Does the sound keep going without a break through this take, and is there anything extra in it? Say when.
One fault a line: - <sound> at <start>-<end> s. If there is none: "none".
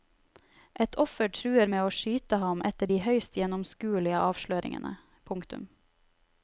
none